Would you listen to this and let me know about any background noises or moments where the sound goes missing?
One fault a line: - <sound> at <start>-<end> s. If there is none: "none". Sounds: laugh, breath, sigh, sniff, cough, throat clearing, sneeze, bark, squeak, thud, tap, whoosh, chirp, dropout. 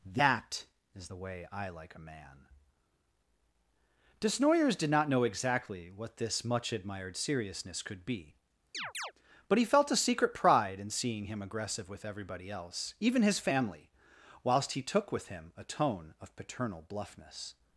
- chirp at 8.7-9.1 s